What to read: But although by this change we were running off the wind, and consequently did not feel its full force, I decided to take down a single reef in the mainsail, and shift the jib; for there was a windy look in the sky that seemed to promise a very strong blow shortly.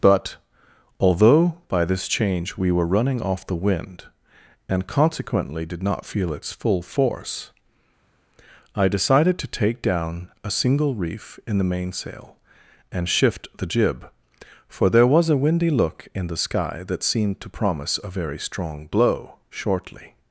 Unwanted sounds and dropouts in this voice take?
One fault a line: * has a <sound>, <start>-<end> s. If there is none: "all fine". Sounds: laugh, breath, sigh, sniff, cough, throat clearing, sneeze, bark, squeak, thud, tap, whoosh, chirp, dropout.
all fine